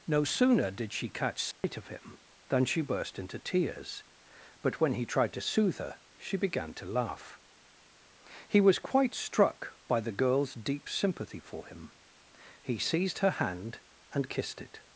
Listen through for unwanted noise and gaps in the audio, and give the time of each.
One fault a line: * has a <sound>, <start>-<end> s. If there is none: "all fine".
* has a dropout, 1.5-1.6 s